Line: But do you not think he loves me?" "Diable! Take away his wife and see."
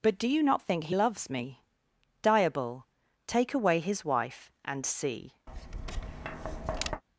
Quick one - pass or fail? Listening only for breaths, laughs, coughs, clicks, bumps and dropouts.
fail